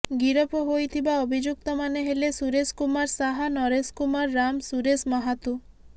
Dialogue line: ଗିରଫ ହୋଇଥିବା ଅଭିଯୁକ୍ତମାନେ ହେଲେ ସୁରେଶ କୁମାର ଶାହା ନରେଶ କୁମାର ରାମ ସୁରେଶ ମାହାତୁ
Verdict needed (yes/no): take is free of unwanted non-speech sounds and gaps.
yes